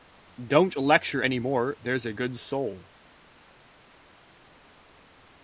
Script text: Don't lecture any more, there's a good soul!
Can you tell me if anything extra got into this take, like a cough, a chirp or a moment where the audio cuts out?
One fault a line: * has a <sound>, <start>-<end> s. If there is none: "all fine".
all fine